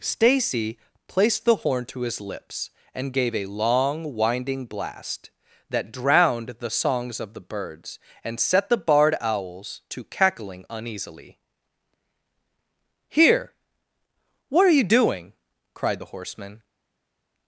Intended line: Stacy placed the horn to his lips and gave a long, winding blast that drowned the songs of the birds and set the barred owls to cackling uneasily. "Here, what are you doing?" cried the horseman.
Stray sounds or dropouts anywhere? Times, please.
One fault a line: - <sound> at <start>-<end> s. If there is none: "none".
none